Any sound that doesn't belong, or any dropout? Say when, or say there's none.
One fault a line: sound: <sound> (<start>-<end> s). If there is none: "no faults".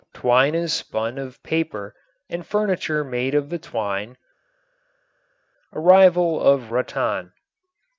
no faults